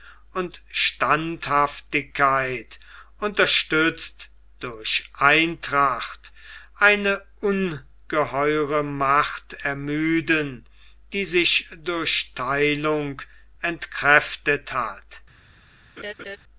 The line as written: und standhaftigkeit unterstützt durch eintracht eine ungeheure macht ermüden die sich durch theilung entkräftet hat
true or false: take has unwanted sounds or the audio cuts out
true